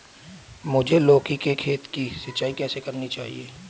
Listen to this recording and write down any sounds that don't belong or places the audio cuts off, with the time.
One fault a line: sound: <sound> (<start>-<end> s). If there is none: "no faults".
no faults